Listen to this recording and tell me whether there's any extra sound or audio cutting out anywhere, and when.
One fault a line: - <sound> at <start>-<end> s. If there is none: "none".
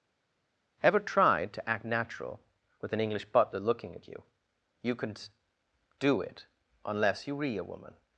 none